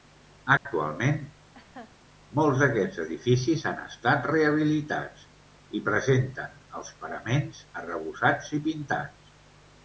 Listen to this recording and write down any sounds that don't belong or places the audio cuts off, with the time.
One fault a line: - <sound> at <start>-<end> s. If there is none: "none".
- dropout at 0.6-0.7 s
- laugh at 1.5-2.0 s